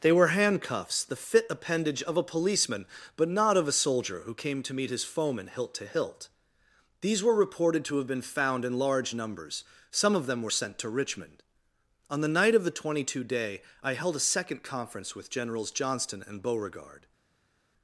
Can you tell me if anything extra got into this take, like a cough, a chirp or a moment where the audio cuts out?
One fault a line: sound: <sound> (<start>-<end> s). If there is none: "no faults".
no faults